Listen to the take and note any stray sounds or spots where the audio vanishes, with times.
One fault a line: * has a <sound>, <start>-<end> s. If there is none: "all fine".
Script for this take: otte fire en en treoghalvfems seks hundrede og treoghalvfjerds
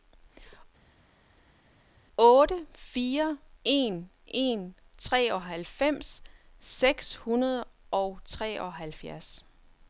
all fine